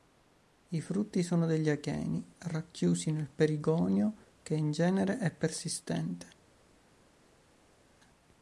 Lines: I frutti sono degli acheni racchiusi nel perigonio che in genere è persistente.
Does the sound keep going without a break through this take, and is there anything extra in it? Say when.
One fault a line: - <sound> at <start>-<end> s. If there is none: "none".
none